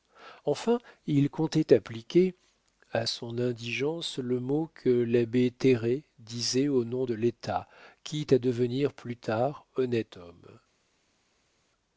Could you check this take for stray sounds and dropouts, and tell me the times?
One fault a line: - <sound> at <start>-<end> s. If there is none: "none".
none